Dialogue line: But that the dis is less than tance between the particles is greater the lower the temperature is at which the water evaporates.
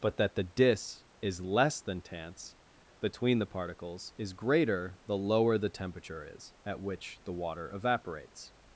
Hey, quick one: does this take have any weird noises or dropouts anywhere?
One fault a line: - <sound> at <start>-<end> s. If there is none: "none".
none